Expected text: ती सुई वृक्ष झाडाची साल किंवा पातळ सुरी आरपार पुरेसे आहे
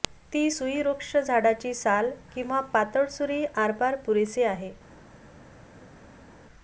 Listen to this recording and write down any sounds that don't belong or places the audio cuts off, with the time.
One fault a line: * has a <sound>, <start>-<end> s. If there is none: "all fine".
all fine